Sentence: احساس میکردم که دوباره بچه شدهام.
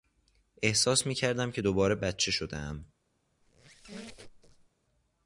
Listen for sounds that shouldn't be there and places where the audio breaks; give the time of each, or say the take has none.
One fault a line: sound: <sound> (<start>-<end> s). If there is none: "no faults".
sound: squeak (3.4-4.7 s)